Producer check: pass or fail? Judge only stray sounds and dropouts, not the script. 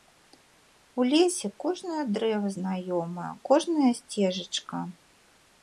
pass